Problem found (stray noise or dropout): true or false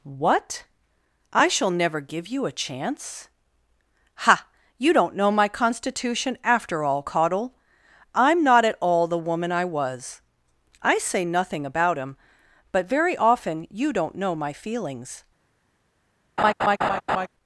true